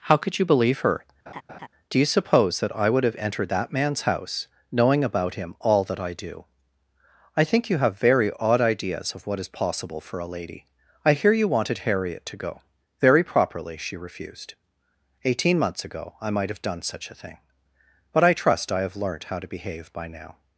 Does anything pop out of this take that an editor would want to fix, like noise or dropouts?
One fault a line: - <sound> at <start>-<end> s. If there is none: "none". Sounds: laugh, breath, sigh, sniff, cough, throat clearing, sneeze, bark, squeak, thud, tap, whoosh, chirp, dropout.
- laugh at 1.3-1.7 s